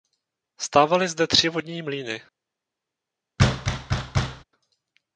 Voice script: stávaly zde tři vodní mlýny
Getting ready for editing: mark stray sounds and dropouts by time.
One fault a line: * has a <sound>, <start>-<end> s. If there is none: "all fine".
* has a thud, 3.4-4.4 s